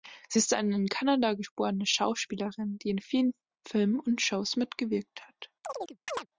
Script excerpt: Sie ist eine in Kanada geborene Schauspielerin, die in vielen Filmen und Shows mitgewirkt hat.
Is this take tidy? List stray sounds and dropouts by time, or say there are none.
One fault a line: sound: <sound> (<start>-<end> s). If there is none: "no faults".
sound: chirp (5.6-6.3 s)